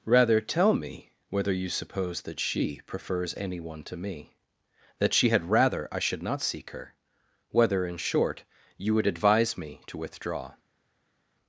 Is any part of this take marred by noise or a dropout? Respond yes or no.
no